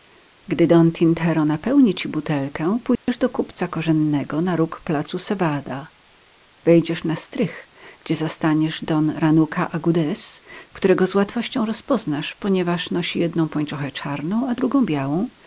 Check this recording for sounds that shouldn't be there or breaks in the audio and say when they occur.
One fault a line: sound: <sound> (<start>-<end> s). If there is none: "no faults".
sound: dropout (3.0-3.1 s)